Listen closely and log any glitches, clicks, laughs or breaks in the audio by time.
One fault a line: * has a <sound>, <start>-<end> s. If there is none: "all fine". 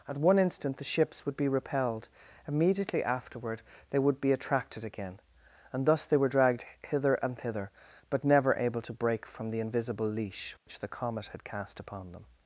* has a dropout, 10.6-10.7 s